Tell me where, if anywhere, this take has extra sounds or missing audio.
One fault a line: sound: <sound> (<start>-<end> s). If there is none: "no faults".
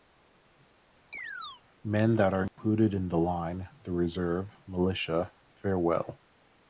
sound: chirp (1.1-1.6 s)
sound: dropout (2.5-2.6 s)